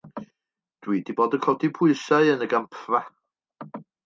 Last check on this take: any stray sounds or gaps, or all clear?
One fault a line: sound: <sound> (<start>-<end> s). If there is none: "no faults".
no faults